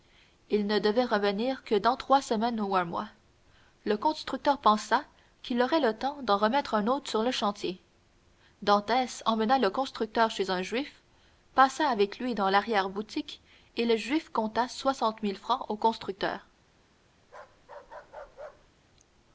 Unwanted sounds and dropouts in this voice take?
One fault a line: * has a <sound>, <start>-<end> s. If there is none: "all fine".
* has a bark, 17.2-18.7 s